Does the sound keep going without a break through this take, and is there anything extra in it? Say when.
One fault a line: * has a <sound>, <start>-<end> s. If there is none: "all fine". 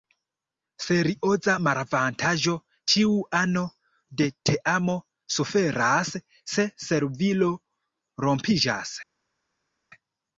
all fine